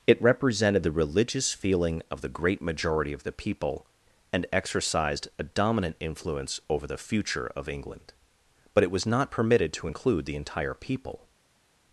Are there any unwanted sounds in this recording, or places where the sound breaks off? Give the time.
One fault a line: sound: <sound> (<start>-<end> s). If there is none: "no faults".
no faults